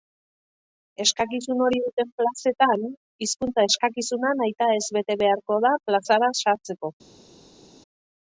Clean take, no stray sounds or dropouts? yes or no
yes